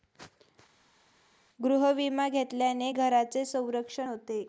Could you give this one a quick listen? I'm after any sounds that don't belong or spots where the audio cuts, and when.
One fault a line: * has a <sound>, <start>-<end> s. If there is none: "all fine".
all fine